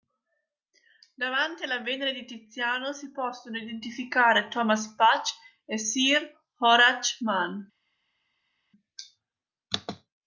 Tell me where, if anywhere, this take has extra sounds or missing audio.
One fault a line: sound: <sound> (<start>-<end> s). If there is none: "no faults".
no faults